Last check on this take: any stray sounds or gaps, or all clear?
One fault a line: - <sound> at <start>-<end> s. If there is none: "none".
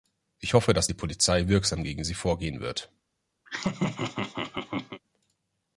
- laugh at 3.5-5.0 s